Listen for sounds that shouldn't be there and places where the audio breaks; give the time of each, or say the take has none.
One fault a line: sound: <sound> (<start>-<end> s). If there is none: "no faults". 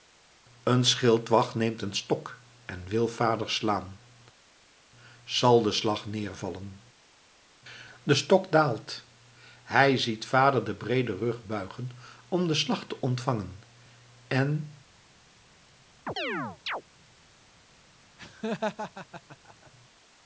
sound: chirp (16.1-16.8 s)
sound: laugh (18.2-19.7 s)